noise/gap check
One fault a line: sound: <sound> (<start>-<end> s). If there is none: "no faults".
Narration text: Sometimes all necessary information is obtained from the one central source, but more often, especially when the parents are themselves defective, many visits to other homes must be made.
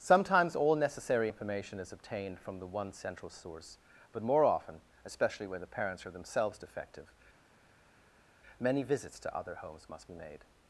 no faults